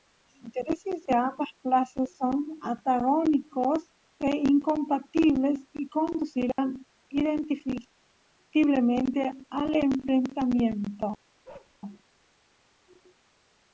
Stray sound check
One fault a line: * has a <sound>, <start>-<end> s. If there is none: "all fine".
* has a dropout, 6.5-6.6 s
* has a bark, 11.4-11.8 s